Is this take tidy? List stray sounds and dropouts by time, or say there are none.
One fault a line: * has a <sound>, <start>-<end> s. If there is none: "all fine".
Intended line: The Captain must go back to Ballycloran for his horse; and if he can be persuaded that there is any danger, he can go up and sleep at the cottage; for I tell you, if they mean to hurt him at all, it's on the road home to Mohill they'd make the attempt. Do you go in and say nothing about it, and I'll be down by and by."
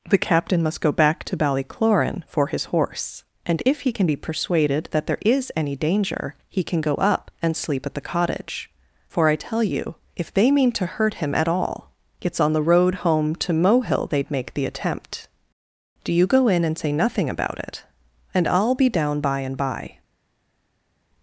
all fine